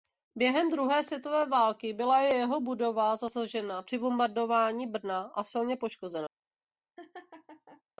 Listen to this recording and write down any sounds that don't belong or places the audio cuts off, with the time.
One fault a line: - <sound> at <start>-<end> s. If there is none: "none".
- laugh at 7.0-7.8 s